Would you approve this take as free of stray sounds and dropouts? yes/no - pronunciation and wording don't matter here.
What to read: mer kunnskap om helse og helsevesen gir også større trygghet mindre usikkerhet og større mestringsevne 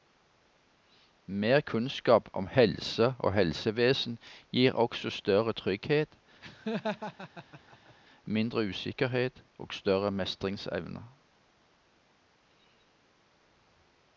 no